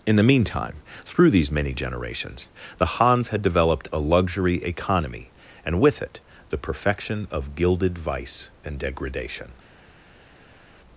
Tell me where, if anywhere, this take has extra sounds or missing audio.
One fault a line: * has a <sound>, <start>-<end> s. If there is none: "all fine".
all fine